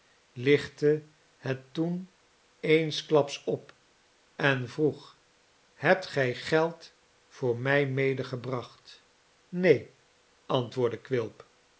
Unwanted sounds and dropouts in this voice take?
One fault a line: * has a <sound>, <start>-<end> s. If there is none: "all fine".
all fine